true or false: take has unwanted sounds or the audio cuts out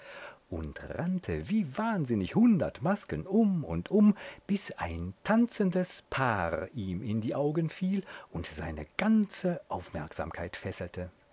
false